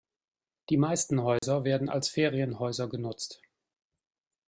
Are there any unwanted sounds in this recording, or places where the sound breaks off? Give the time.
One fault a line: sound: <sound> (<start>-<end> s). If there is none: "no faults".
sound: dropout (1.4-1.4 s)